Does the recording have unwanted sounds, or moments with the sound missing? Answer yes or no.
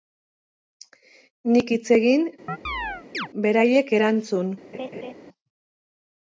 yes